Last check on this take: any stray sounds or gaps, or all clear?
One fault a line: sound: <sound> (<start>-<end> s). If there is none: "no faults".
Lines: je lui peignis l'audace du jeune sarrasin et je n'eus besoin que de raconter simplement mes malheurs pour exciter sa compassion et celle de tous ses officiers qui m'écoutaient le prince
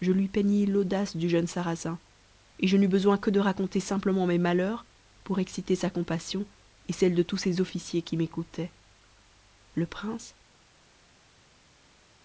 no faults